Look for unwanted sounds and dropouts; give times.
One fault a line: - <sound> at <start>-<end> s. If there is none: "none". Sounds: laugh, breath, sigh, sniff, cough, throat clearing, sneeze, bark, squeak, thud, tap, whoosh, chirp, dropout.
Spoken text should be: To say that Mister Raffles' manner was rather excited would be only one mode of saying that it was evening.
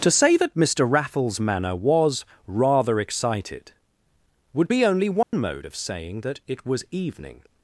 - dropout at 5.2-5.3 s